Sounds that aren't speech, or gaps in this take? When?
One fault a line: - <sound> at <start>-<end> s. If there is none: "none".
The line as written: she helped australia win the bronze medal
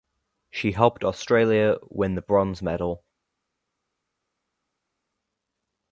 none